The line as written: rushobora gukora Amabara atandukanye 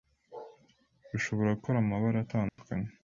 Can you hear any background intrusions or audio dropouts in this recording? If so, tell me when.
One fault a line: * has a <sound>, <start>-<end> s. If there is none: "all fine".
* has a dropout, 2.5-2.6 s